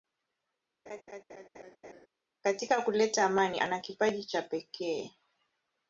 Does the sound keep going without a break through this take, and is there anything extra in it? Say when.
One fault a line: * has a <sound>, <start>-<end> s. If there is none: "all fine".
* has a laugh, 0.9-2.1 s